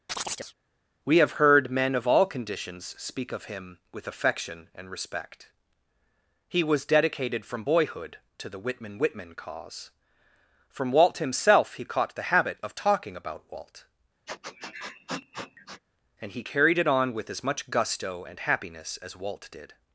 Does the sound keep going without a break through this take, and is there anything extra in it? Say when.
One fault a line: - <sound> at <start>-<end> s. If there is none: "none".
- chirp at 0.1-0.5 s
- sniff at 14.3-15.8 s